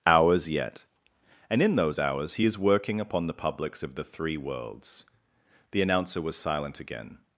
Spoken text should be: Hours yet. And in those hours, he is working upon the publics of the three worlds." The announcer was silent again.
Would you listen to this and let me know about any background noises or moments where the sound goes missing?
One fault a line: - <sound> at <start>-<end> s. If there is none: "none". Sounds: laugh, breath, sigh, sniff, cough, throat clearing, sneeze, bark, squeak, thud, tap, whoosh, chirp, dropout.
none